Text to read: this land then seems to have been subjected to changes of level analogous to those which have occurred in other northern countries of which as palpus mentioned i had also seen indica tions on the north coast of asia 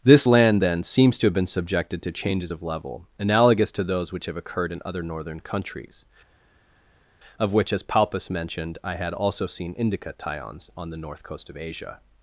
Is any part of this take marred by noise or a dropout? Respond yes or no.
no